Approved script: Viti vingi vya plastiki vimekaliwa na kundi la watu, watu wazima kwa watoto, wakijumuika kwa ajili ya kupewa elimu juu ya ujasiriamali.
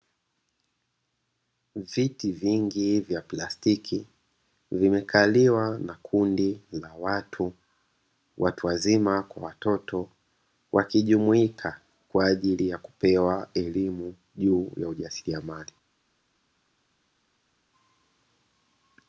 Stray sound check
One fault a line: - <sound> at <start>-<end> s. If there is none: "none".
none